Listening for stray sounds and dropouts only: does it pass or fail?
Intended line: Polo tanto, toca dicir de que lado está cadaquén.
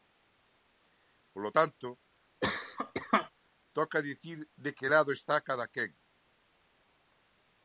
fail